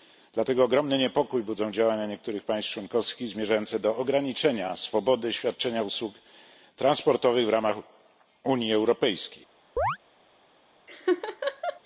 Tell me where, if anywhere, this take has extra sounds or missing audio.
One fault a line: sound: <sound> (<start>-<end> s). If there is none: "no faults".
sound: chirp (9.8-10.0 s)
sound: laugh (10.9-11.8 s)